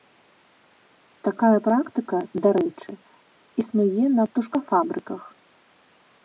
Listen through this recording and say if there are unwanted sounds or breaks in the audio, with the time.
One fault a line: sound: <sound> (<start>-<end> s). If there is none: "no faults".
no faults